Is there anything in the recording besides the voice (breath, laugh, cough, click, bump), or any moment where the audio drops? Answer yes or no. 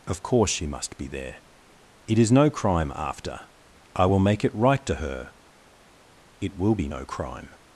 no